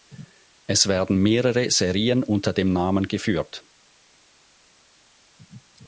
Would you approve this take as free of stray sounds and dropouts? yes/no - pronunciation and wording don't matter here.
yes